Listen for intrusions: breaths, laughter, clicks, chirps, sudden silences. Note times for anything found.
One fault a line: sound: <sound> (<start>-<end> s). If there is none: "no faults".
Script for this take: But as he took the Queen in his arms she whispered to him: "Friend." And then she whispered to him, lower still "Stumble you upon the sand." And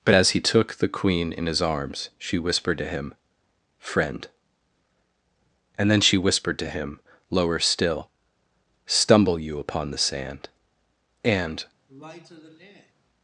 sound: sigh (11.9-12.9 s)